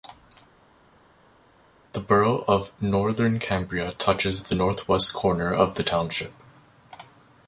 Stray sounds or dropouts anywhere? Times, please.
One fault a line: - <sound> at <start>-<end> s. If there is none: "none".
none